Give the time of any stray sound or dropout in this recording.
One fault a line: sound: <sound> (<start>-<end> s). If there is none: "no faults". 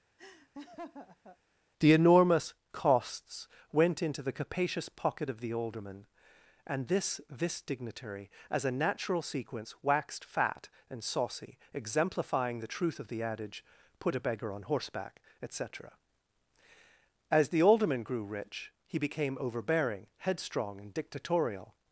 sound: laugh (0.2-1.4 s)